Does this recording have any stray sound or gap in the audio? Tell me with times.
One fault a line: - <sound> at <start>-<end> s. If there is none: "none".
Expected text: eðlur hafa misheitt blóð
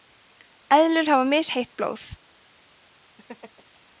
- laugh at 3.2-3.8 s